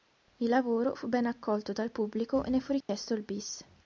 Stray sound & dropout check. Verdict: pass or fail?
fail